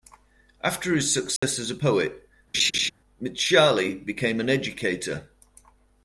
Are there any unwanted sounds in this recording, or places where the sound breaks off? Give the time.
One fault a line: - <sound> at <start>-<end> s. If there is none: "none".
- dropout at 1.4-1.4 s
- laugh at 2.5-2.9 s